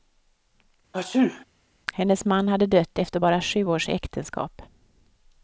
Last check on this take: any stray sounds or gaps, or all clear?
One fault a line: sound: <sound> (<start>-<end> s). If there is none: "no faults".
sound: sneeze (0.9-1.4 s)